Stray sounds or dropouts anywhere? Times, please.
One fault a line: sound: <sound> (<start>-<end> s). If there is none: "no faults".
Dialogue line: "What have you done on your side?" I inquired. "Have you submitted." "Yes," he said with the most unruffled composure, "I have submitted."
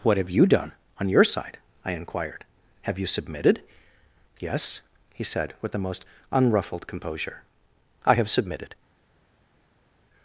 no faults